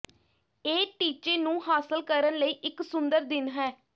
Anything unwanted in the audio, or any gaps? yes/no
no